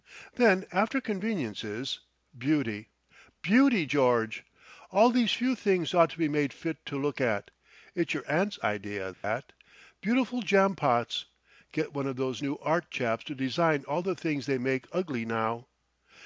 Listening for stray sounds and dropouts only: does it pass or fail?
fail